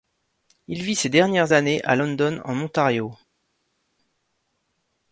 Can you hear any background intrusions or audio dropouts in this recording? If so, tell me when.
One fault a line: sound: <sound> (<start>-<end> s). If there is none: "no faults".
no faults